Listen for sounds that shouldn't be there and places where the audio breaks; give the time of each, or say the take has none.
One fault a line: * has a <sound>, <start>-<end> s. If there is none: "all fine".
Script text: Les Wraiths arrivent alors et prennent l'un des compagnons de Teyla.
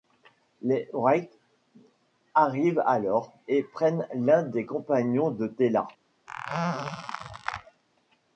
* has a squeak, 6.3-7.8 s